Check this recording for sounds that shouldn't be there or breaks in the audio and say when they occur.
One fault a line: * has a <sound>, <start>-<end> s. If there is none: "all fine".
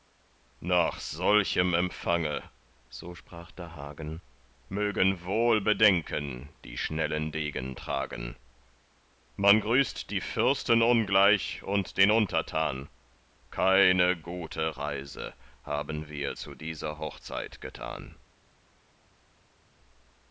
all fine